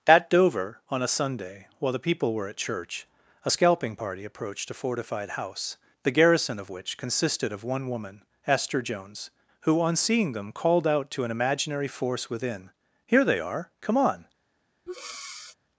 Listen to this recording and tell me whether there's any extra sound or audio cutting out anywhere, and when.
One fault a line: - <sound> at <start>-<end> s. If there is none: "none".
- breath at 14.9-15.6 s